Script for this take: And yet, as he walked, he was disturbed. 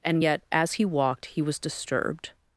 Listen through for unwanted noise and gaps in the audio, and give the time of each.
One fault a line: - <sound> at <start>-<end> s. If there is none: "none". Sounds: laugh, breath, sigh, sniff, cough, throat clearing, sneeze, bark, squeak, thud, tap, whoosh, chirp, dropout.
none